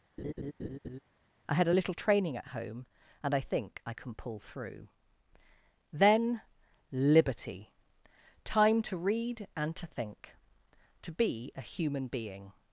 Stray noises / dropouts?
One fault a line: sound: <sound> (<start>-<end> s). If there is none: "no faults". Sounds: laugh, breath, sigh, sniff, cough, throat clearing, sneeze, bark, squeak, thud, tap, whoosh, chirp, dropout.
sound: laugh (0.2-1.0 s)